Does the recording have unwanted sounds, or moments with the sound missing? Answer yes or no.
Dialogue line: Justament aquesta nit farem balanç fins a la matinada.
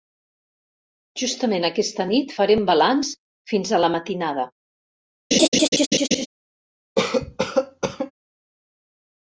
yes